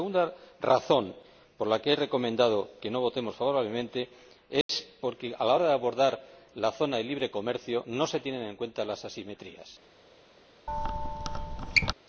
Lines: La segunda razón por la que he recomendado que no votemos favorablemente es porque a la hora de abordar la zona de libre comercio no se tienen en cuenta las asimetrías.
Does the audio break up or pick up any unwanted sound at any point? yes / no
yes